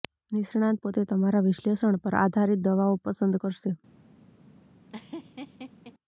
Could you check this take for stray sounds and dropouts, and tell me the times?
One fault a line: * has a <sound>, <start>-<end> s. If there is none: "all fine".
* has a laugh, 4.9-5.9 s